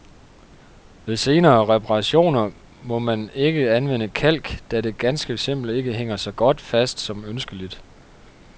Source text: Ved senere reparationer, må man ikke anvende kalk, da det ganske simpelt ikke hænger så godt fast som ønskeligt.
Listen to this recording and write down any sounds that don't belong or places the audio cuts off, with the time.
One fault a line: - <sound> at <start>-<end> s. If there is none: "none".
none